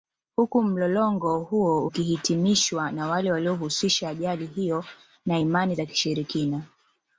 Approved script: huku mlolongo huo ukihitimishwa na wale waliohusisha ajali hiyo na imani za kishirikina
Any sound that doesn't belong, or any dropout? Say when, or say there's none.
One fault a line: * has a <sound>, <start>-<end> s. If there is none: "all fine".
all fine